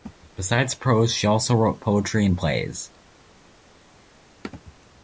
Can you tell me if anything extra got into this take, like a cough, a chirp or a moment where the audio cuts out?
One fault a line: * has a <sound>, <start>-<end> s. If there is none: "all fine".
all fine